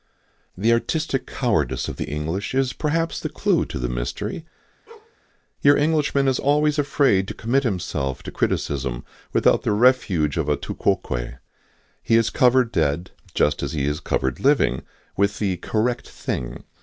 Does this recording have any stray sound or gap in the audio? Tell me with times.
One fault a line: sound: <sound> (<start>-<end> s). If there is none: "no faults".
sound: bark (4.9-5.2 s)